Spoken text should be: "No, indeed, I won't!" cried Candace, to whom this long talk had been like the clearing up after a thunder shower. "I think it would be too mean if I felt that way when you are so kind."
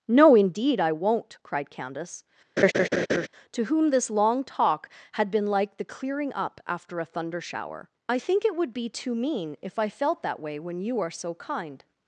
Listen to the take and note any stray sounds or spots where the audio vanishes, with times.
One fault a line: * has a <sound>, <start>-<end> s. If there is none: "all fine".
* has a laugh, 2.6-3.3 s